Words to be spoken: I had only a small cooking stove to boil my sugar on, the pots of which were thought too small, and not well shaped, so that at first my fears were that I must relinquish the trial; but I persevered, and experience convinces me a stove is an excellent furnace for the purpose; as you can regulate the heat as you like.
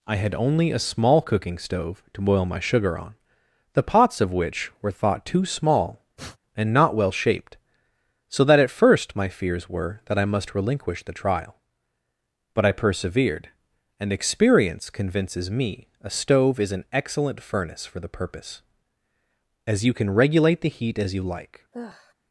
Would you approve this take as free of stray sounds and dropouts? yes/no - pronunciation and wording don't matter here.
no